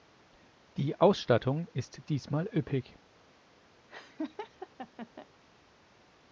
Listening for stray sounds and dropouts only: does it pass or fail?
fail